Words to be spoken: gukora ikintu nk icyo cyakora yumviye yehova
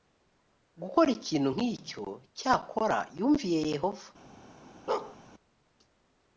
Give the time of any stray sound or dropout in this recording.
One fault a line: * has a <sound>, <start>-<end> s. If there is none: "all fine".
* has a bark, 4.9-5.2 s